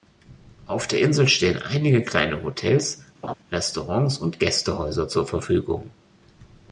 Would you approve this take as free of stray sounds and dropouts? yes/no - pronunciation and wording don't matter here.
no